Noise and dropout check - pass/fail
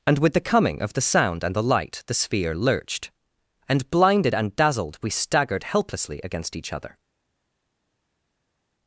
pass